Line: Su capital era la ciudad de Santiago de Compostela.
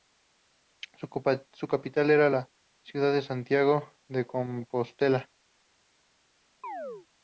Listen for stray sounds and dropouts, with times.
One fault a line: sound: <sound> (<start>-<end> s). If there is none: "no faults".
sound: chirp (6.6-7.1 s)